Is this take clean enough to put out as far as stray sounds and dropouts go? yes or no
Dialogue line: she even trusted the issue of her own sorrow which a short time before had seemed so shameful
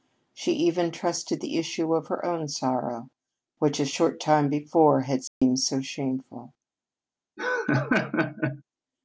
no